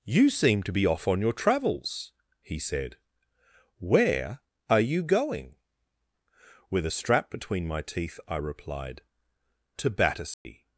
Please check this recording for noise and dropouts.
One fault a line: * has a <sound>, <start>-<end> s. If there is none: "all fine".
* has a dropout, 10.3-10.5 s